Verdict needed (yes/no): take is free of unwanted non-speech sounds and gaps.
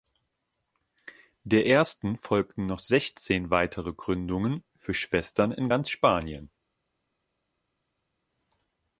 yes